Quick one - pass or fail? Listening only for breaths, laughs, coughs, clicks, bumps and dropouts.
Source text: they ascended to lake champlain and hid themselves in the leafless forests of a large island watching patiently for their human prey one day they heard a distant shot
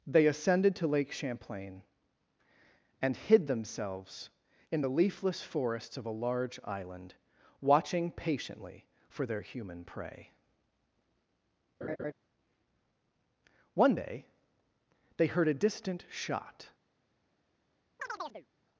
fail